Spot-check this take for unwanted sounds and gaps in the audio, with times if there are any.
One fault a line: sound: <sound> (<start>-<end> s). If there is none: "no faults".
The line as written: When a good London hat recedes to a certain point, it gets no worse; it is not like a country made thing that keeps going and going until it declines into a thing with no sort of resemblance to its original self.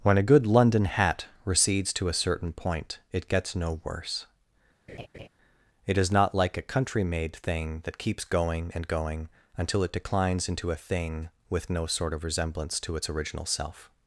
sound: laugh (4.9-5.3 s)